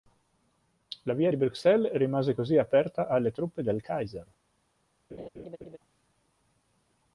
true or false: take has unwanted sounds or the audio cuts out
true